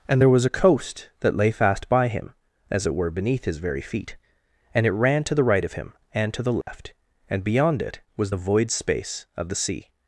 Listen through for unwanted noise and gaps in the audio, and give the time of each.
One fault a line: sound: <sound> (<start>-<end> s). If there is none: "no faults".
sound: dropout (6.6-6.7 s)